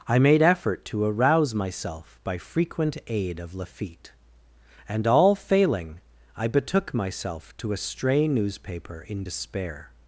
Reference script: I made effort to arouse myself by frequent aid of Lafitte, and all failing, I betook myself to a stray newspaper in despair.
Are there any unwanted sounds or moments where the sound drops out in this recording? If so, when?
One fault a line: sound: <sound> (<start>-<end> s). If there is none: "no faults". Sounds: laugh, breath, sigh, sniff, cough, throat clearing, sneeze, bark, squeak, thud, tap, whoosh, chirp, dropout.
no faults